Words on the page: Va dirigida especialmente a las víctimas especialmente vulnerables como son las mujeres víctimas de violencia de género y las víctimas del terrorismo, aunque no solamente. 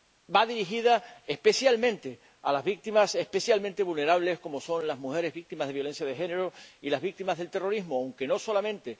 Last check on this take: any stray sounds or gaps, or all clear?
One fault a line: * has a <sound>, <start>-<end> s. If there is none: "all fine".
all fine